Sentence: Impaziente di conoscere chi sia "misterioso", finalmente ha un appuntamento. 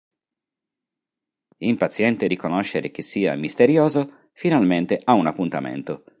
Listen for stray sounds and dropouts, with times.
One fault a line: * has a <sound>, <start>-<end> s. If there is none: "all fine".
all fine